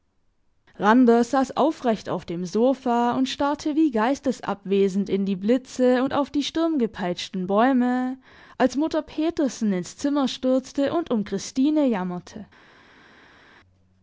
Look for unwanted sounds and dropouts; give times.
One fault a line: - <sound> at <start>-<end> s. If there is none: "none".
none